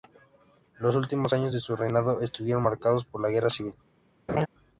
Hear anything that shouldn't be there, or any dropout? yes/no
yes